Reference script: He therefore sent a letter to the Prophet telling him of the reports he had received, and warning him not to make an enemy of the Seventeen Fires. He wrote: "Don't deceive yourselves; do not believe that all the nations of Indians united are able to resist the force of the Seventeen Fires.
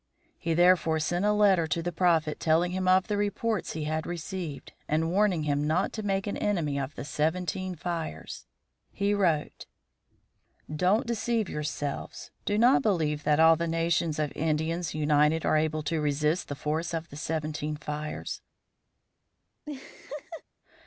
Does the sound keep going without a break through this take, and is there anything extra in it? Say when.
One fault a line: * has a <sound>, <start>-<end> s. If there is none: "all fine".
* has a laugh, 19.7-20.4 s